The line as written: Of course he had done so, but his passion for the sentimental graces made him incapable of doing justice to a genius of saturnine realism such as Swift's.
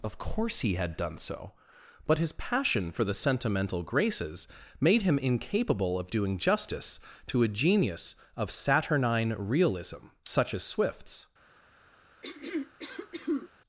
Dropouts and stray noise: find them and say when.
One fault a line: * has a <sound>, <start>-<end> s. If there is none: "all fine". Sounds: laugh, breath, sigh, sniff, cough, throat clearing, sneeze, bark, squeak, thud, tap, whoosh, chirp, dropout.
* has a throat clearing, 12.2-13.5 s